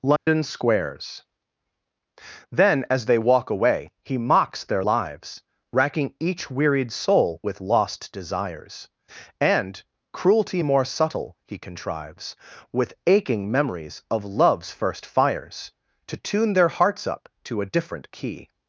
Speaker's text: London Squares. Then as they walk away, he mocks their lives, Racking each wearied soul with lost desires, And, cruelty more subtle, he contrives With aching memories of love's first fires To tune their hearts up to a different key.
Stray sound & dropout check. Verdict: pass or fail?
fail